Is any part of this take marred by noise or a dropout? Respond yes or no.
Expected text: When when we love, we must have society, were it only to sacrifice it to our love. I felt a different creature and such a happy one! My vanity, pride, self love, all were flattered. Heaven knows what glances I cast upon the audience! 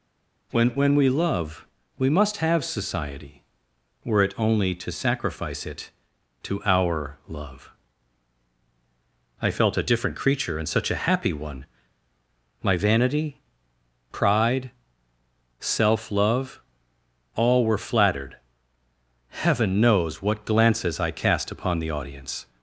no